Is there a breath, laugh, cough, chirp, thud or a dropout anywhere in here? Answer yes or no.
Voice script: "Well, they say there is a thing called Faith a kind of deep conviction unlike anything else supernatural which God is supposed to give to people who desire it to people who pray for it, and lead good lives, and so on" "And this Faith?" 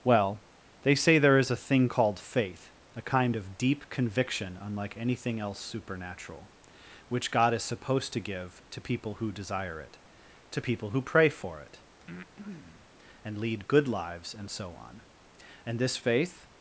yes